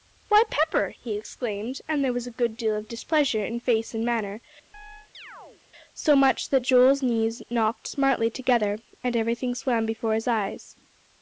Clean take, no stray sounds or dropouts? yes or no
no